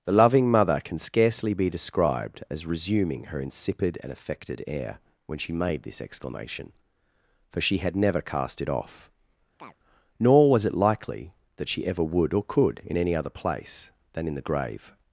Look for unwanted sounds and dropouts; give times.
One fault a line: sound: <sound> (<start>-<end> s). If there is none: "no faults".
sound: chirp (9.6-9.8 s)